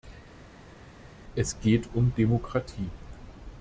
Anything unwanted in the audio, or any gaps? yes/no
no